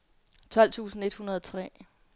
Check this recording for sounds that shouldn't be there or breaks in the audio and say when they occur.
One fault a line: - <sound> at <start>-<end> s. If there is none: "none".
none